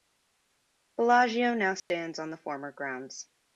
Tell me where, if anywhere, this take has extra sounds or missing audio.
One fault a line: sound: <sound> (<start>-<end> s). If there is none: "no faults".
sound: dropout (1.8-1.9 s)